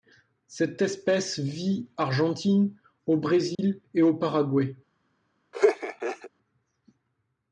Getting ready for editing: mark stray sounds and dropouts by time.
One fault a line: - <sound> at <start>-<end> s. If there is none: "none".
- dropout at 3.5-3.6 s
- laugh at 5.5-6.3 s